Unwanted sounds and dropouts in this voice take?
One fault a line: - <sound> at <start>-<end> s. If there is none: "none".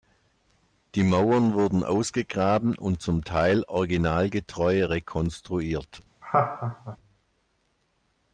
- laugh at 6.2-7.0 s